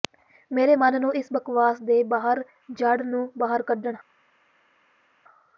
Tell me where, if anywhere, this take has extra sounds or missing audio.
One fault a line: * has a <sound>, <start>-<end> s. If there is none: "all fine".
all fine